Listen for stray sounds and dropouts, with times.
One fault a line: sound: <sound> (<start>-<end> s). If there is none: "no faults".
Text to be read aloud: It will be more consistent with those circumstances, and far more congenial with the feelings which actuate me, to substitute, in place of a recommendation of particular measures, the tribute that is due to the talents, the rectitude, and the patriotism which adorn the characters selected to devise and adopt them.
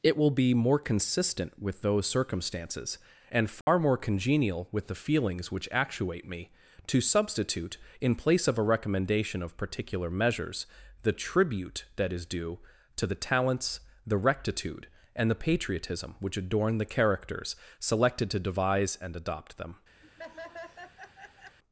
sound: dropout (3.6-3.7 s)
sound: laugh (20.0-21.6 s)